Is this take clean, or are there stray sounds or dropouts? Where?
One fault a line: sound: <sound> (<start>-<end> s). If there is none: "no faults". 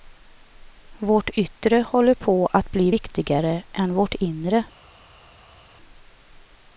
no faults